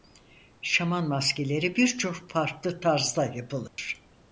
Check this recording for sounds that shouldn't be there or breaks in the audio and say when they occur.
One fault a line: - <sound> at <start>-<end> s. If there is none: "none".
- dropout at 3.7-3.8 s